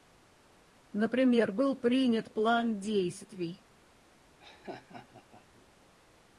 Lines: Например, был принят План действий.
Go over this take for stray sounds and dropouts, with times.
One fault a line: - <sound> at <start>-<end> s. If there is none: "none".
- laugh at 4.4-5.7 s